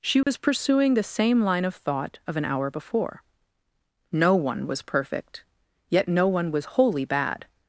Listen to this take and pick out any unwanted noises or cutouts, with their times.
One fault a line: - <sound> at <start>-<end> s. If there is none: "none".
- dropout at 0.2-0.3 s